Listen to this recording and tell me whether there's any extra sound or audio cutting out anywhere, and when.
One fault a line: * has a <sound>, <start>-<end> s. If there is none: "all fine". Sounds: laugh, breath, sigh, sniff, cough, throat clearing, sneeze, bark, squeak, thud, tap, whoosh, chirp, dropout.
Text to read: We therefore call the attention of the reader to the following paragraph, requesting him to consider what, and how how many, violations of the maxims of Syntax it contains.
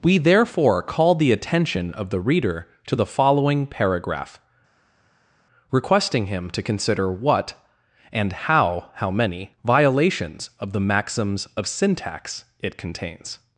all fine